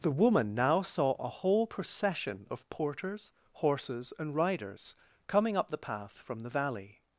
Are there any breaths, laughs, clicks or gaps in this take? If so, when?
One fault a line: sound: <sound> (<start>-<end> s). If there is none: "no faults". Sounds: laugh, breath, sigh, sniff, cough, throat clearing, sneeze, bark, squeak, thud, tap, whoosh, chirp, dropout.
no faults